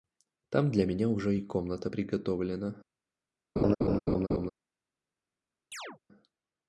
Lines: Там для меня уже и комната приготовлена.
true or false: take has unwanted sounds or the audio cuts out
true